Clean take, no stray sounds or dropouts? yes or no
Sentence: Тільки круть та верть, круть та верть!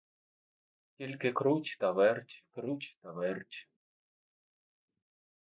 yes